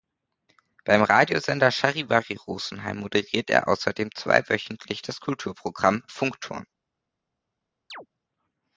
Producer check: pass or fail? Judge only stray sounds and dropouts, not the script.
fail